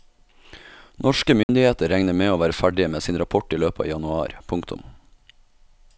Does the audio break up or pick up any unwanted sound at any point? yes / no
yes